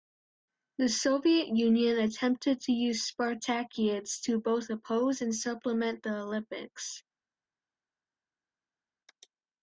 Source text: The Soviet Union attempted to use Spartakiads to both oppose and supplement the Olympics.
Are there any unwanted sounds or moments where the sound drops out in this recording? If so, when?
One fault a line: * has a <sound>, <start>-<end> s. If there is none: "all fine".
all fine